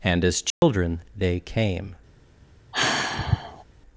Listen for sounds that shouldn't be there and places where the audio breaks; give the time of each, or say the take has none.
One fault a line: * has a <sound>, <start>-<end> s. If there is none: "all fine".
* has a dropout, 0.5-0.6 s
* has a sigh, 2.7-3.6 s